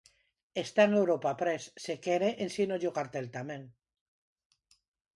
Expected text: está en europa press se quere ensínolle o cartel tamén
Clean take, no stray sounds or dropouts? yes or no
yes